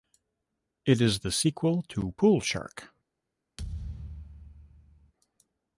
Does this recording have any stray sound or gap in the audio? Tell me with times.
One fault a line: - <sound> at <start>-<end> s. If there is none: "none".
- thud at 3.6-5.1 s